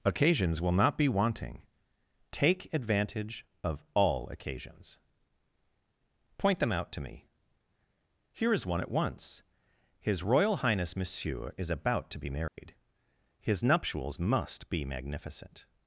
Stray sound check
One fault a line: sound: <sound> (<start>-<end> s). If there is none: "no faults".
sound: dropout (12.5-12.6 s)